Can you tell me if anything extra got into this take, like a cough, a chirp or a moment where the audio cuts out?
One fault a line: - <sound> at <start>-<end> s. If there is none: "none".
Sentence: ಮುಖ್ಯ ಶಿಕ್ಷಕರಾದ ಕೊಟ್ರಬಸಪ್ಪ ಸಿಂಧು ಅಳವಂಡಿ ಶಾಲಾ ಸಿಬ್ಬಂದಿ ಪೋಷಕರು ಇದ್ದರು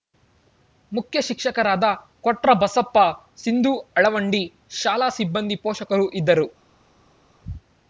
none